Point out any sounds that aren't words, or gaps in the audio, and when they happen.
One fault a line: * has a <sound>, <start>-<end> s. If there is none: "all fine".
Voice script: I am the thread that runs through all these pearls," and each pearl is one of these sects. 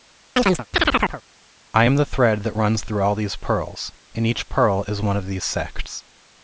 * has a chirp, 0.4-1.2 s